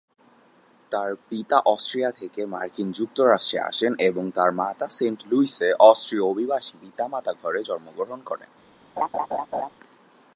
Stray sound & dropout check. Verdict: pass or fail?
fail